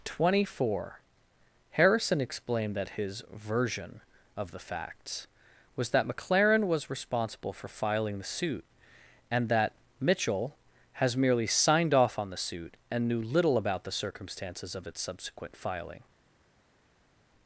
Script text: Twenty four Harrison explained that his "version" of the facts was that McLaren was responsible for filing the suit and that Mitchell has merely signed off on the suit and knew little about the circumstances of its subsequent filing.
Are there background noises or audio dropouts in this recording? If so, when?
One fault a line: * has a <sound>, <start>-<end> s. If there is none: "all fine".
all fine